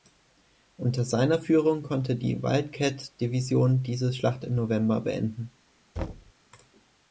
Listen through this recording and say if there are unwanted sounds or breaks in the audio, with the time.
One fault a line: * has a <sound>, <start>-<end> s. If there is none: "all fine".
* has a thud, 6.0-6.3 s